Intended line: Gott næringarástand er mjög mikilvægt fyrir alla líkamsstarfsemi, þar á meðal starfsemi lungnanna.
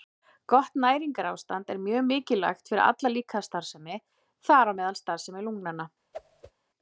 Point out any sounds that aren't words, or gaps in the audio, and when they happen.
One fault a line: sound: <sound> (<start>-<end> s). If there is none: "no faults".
sound: whoosh (6.1-6.5 s)